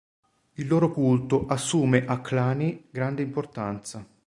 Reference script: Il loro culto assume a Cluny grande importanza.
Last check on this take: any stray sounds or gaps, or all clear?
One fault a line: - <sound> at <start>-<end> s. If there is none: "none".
none